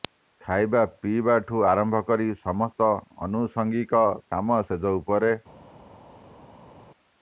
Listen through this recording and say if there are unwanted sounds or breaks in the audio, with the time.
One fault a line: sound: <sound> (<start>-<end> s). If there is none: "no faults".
no faults